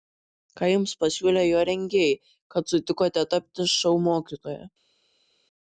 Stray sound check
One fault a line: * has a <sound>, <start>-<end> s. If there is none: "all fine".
all fine